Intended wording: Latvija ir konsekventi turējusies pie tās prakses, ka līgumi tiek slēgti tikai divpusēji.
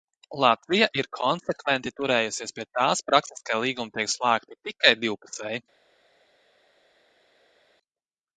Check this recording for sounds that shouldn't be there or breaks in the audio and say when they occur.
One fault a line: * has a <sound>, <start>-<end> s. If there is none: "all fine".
all fine